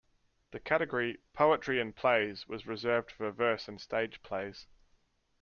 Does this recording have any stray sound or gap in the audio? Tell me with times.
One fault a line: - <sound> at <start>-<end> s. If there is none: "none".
none